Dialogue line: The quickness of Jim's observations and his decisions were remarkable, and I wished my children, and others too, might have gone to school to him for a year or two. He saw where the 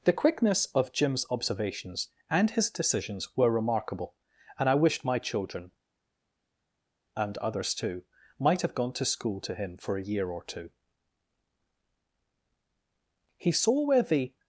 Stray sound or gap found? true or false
false